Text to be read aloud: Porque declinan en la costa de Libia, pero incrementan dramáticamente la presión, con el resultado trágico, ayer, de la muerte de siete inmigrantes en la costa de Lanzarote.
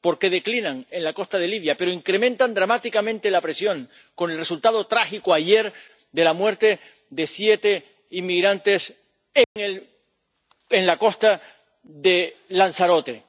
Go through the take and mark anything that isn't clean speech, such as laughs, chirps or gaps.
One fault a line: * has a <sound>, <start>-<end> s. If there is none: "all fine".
* has a dropout, 9.4-9.6 s